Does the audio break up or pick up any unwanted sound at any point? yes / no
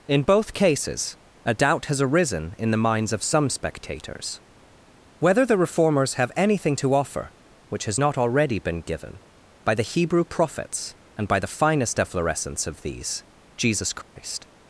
yes